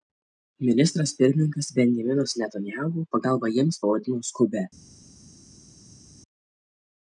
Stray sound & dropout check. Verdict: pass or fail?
pass